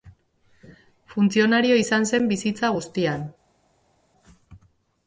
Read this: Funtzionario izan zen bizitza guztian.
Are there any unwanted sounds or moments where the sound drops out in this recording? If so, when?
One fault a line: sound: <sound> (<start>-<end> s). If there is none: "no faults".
no faults